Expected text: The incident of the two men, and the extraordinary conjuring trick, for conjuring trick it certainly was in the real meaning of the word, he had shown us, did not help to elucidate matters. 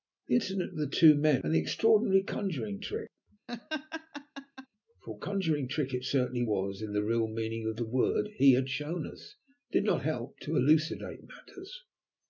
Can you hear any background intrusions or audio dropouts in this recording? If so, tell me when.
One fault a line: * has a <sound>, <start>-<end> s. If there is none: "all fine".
* has a laugh, 3.5-4.7 s